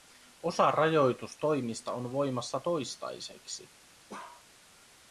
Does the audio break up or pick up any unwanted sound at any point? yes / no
yes